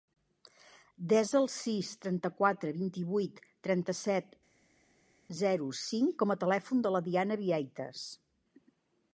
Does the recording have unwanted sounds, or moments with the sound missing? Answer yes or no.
no